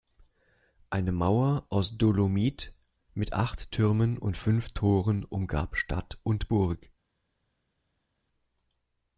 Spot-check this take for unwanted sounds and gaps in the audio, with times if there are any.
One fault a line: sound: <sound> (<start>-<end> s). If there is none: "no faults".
no faults